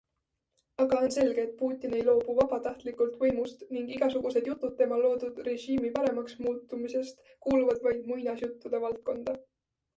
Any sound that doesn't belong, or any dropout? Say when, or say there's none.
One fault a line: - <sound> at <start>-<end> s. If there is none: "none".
none